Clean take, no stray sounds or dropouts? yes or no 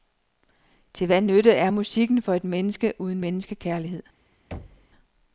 no